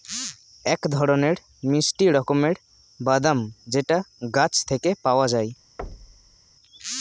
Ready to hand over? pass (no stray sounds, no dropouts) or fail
fail